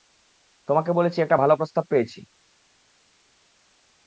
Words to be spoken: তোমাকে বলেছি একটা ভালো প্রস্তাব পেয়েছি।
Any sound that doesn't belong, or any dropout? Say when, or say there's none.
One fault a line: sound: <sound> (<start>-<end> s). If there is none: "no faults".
no faults